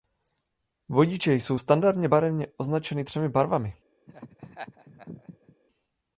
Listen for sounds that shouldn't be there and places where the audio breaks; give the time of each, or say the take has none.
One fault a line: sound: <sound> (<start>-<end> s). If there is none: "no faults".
sound: laugh (4.1-5.6 s)